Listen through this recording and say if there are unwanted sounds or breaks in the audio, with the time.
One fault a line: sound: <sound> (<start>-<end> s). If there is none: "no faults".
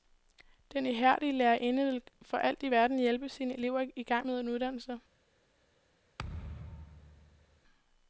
sound: thud (6.2-7.6 s)